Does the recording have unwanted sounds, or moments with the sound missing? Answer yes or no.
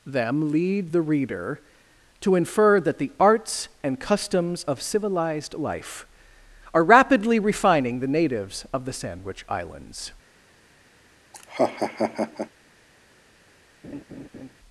yes